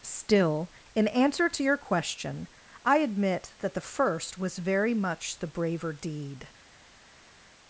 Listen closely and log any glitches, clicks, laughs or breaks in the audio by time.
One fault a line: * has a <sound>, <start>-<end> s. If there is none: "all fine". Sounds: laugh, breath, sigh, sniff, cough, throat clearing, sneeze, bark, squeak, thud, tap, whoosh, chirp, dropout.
all fine